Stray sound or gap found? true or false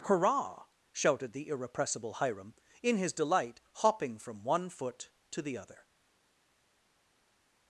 false